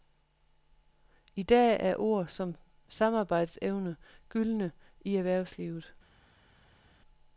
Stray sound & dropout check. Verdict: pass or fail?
pass